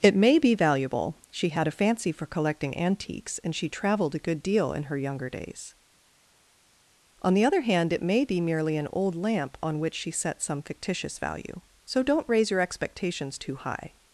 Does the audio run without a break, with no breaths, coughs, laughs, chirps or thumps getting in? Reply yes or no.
yes